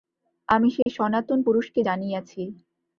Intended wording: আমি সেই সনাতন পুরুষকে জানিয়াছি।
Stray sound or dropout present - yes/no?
yes